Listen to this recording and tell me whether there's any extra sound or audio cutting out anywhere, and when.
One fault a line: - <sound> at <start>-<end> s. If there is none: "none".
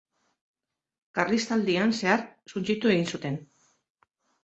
none